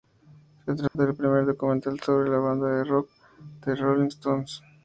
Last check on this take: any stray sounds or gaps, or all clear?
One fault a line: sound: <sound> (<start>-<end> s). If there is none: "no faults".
sound: dropout (0.9-1.0 s)